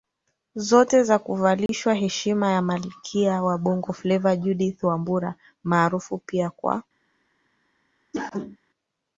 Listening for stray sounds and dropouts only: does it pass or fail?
fail